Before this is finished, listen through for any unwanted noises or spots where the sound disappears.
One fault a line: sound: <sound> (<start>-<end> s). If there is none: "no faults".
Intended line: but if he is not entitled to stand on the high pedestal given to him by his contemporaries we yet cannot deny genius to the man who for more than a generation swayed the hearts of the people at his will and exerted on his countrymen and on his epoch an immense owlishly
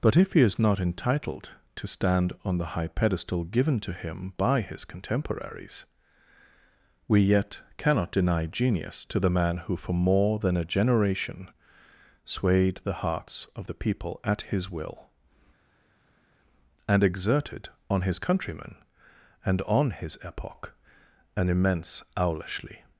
no faults